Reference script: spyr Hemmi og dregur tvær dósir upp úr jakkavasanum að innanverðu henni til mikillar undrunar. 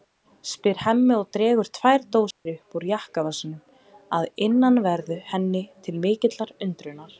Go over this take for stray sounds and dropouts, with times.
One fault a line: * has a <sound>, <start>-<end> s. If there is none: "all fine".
* has a dropout, 2.3-2.5 s